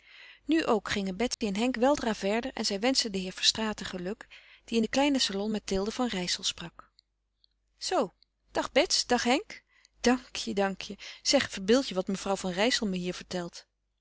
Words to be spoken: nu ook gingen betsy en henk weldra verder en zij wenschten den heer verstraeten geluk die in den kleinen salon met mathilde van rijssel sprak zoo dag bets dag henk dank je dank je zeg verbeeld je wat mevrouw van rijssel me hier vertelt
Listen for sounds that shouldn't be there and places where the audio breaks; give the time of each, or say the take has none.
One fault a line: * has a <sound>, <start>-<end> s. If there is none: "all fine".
* has a dropout, 1.3-1.4 s